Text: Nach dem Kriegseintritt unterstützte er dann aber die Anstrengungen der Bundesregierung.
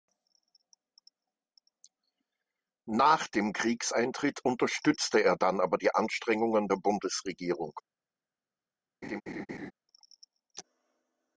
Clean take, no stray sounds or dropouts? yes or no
no